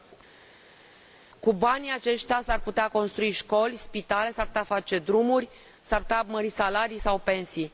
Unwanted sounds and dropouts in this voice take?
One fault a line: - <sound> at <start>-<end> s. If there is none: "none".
none